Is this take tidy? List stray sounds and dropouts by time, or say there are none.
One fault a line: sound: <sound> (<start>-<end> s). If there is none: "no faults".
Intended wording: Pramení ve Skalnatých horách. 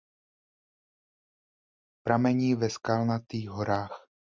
no faults